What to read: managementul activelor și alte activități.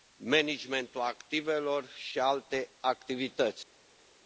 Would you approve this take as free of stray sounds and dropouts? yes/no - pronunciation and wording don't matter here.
yes